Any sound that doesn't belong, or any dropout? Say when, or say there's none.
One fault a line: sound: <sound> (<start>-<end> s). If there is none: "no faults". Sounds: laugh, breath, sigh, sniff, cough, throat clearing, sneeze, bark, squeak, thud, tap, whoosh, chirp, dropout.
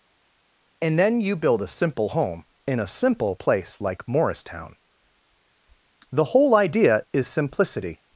no faults